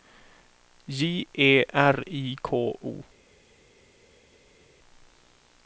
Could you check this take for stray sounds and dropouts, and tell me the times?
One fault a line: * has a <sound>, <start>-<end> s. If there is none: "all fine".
all fine